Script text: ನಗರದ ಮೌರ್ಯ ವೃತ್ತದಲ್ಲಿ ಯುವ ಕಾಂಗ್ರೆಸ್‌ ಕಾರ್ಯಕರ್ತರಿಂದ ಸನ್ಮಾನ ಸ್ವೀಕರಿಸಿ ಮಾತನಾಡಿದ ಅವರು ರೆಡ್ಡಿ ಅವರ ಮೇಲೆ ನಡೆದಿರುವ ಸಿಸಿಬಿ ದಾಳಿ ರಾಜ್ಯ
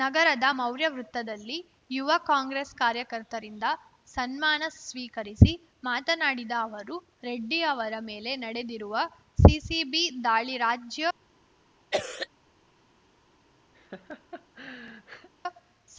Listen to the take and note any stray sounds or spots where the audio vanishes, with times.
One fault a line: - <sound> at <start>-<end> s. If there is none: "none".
- cough at 11.9-12.3 s
- laugh at 13.7-15.3 s